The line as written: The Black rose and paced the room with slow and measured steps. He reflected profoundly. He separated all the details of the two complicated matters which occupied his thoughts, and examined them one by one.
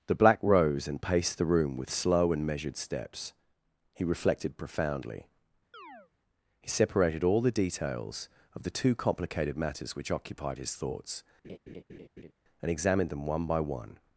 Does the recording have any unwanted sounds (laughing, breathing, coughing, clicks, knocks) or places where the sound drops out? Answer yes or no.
yes